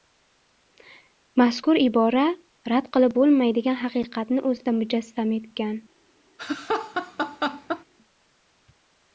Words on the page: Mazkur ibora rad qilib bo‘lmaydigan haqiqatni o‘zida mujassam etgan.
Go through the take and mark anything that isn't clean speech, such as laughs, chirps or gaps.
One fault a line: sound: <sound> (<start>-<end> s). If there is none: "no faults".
sound: laugh (6.4-7.8 s)